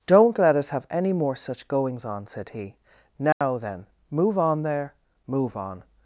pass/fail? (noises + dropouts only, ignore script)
fail